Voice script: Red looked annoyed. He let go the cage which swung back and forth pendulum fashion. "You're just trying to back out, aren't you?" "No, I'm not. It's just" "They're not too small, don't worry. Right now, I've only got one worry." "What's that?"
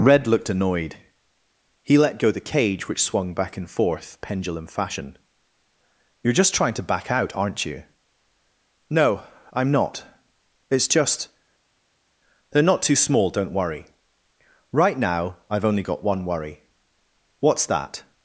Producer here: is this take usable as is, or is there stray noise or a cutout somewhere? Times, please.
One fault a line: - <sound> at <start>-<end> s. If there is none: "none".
none